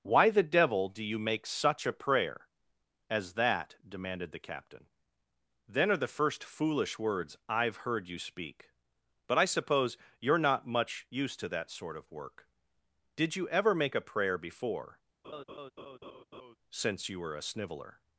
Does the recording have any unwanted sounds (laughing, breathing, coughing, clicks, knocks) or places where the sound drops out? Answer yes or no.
yes